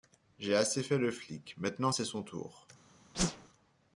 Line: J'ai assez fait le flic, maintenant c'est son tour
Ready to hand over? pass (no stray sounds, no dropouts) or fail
fail